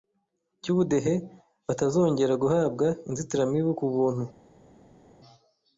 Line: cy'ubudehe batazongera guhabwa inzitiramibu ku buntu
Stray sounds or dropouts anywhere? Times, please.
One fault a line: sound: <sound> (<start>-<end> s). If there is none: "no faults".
no faults